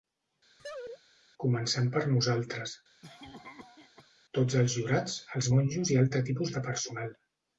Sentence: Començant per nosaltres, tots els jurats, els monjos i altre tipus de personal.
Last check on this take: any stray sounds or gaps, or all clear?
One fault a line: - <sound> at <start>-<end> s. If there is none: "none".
- laugh at 0.6-1.0 s
- cough at 3.0-4.1 s